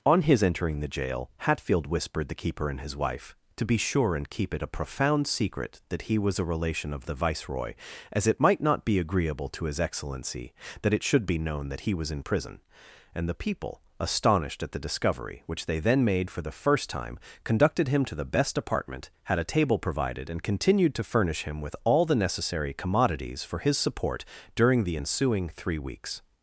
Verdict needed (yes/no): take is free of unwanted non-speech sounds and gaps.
yes